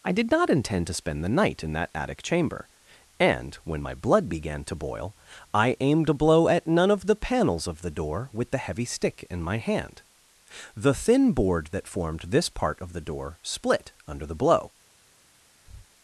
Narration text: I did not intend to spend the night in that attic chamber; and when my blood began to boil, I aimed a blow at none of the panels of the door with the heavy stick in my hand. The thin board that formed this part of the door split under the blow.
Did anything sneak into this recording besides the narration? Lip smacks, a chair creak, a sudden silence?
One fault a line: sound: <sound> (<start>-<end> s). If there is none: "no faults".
sound: breath (15.6-15.9 s)